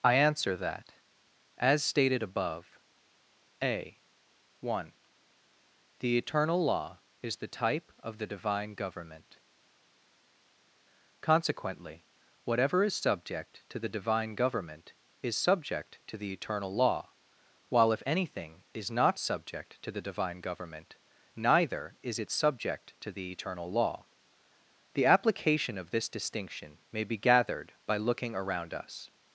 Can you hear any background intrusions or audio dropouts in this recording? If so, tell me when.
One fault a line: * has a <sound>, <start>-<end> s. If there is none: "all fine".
all fine